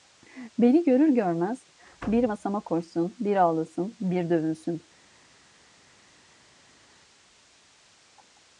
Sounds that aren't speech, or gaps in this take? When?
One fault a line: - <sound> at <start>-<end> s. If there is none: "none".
none